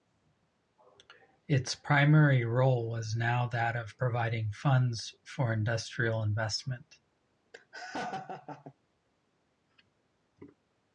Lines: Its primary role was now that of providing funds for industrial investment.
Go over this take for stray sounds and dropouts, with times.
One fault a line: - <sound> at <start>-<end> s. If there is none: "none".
- laugh at 7.5-8.7 s